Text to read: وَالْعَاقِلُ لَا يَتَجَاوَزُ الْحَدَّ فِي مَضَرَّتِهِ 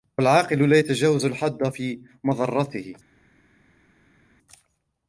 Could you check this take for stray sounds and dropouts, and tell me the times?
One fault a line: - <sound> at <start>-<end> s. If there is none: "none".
none